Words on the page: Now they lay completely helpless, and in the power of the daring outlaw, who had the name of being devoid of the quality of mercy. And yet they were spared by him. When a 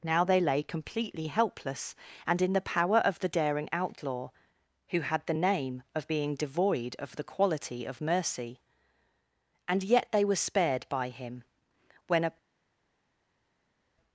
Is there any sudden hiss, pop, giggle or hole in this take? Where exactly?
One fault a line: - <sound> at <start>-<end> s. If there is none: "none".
none